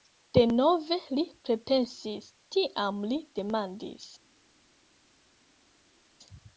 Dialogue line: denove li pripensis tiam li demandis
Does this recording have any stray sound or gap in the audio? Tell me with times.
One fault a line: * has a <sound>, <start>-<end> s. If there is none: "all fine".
all fine